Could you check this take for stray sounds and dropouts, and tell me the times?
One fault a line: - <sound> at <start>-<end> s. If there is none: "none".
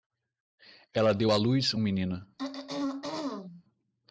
- throat clearing at 2.4-3.6 s